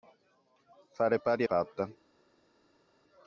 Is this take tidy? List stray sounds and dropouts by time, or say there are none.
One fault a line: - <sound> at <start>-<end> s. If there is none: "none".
none